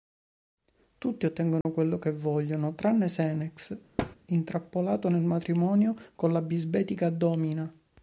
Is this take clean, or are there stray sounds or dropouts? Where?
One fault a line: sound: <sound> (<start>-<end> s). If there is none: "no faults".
sound: dropout (1.6-1.7 s)
sound: thud (4.0-4.2 s)